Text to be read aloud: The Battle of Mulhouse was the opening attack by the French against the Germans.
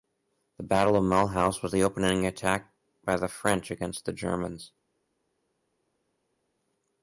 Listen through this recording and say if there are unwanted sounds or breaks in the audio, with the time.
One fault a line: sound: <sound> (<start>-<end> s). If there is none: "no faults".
no faults